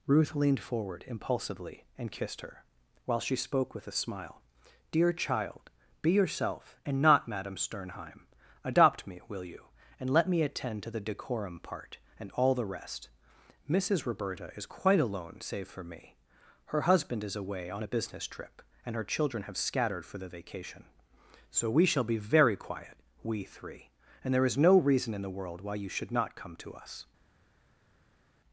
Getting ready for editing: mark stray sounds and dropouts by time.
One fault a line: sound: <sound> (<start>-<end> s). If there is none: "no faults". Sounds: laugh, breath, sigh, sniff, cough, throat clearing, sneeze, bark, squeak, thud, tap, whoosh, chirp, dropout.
no faults